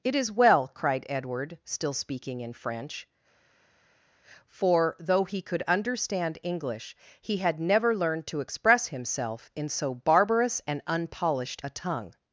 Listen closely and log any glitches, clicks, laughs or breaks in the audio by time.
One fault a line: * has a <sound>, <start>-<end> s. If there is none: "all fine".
all fine